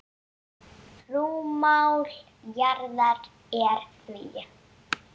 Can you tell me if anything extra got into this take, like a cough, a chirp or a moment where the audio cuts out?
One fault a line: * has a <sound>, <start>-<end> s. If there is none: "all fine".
all fine